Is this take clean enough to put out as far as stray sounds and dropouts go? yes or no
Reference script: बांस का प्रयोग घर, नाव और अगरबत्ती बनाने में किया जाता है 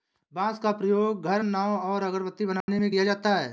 no